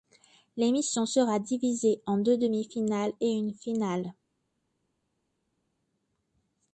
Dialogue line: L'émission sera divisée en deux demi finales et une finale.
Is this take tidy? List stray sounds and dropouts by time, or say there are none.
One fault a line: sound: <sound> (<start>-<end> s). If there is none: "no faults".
no faults